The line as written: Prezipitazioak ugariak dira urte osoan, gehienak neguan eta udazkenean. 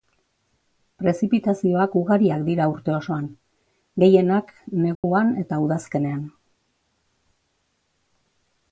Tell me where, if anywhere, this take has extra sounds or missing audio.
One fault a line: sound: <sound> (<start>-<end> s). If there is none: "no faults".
sound: dropout (4.9-5.0 s)